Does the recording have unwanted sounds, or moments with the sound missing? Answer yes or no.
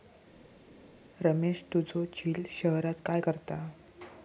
no